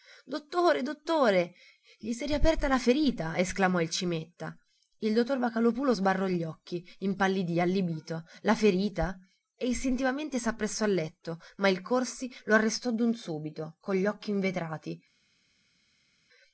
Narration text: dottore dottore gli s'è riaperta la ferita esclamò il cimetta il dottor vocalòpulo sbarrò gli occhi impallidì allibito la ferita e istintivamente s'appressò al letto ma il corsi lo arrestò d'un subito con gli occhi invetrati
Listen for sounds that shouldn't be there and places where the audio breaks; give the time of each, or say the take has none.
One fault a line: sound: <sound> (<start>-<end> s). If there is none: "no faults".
no faults